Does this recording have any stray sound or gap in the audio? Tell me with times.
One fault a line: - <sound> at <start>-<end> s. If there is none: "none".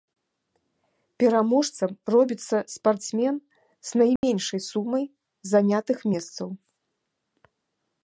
- dropout at 4.2-4.2 s